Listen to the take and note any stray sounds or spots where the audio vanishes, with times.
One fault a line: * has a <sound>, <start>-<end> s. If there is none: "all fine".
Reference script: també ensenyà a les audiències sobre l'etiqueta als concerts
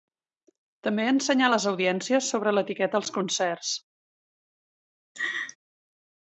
* has a laugh, 5.1-5.6 s